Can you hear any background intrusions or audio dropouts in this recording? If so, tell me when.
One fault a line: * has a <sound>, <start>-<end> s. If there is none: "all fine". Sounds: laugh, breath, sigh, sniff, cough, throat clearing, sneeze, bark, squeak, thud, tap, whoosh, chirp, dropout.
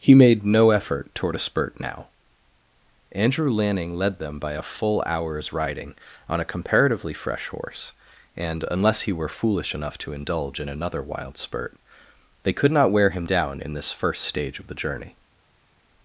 all fine